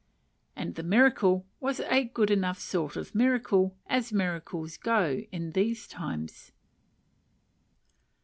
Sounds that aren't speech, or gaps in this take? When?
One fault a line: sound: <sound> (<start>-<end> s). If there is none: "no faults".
no faults